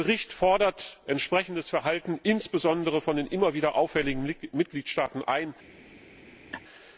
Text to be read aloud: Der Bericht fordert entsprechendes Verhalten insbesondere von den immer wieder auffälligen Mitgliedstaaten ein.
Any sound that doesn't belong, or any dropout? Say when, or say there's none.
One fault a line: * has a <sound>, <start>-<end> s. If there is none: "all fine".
* has a laugh, 6.5-6.6 s